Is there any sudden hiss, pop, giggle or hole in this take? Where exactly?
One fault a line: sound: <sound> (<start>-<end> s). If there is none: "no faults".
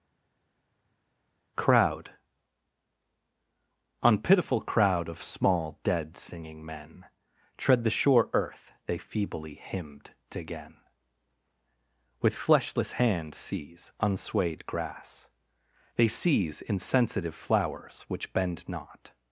no faults